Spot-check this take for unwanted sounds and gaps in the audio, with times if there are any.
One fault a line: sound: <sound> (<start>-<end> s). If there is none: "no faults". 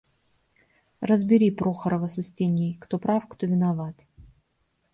no faults